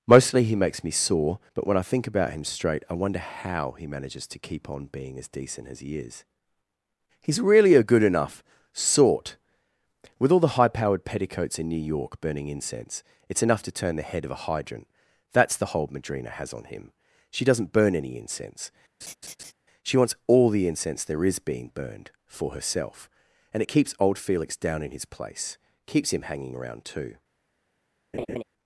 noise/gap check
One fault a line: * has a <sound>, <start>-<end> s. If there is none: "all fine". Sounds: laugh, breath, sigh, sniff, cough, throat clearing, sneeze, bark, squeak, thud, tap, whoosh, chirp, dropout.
* has a laugh, 19.0-19.5 s
* has a laugh, 28.1-28.4 s